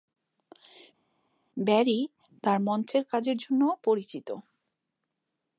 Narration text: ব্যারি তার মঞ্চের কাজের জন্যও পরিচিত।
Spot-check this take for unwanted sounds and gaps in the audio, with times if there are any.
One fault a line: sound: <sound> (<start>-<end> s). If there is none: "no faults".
no faults